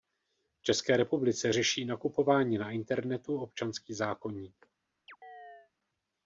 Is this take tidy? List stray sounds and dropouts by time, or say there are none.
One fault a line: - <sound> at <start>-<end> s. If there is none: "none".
- chirp at 5.1-5.7 s